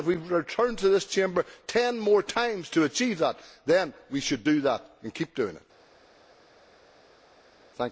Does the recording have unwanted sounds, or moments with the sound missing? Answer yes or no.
no